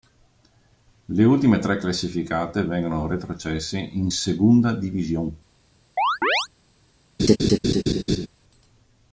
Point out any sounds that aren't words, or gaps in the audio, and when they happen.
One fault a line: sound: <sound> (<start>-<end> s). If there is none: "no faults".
sound: chirp (6.0-6.5 s)
sound: laugh (7.2-8.3 s)